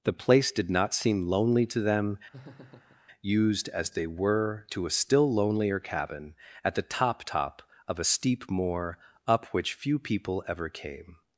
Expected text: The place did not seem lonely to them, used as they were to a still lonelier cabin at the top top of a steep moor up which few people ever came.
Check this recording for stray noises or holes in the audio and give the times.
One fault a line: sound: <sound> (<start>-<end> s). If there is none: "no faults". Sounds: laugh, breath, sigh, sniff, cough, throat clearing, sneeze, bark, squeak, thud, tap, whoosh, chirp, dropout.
sound: laugh (2.3-3.0 s)